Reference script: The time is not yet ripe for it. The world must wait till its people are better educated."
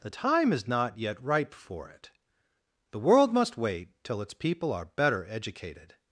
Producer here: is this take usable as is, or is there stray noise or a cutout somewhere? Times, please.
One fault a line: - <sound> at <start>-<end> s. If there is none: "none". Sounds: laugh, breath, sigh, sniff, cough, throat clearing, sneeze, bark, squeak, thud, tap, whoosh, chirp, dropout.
none